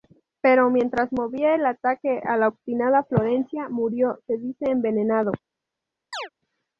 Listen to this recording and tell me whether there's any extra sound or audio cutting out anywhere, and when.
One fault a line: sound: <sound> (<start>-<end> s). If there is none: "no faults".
sound: chirp (6.1-6.3 s)